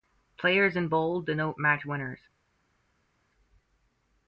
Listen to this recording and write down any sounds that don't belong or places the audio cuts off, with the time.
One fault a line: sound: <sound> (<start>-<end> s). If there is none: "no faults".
no faults